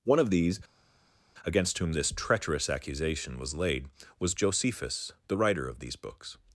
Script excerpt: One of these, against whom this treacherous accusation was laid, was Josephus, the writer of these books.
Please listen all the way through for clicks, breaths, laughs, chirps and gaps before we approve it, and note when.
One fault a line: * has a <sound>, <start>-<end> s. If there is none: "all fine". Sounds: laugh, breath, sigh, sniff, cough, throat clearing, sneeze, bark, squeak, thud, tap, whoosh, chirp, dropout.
all fine